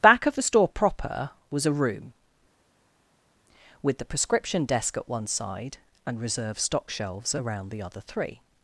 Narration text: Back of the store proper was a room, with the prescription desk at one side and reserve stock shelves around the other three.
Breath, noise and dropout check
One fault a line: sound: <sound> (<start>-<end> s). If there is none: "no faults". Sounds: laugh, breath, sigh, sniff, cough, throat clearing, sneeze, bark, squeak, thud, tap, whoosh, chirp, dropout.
no faults